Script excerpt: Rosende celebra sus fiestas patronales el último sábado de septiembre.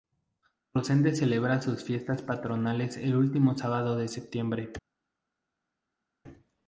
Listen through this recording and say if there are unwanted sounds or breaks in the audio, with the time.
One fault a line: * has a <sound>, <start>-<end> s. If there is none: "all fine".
all fine